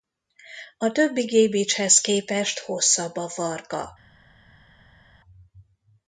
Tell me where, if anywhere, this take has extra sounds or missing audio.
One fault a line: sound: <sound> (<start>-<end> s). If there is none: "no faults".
no faults